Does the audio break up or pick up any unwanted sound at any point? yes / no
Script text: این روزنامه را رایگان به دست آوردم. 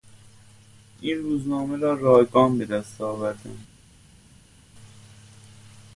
no